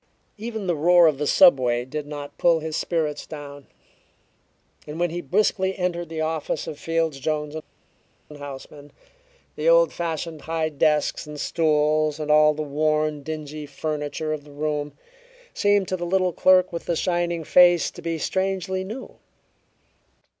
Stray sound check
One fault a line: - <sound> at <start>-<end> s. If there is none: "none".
none